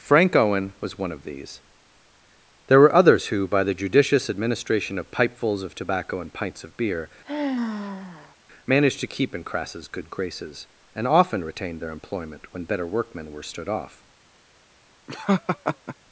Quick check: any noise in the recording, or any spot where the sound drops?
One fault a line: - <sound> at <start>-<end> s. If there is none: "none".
- sigh at 7.2-8.4 s
- laugh at 15.1-16.0 s